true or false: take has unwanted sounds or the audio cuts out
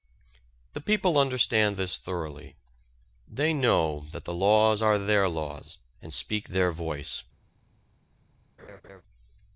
true